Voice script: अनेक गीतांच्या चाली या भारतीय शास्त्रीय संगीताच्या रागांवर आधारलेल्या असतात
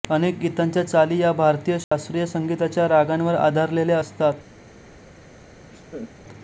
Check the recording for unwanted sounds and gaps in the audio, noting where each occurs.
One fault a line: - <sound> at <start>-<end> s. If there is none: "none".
- dropout at 1.8-1.9 s
- laugh at 5.7-6.1 s